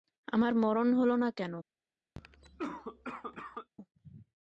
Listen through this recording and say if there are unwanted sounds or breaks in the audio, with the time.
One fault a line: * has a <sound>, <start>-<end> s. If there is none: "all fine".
* has a cough, 2.1-3.7 s